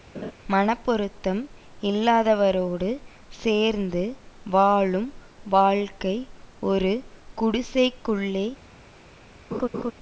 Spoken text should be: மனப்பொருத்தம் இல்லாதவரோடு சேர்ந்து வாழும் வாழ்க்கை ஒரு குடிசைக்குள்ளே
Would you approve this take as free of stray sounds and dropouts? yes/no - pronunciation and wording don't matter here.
no